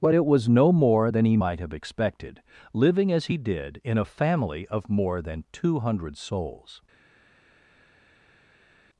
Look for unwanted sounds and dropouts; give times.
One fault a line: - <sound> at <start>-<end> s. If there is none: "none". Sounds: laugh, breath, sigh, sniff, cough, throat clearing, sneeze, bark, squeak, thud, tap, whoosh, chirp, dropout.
none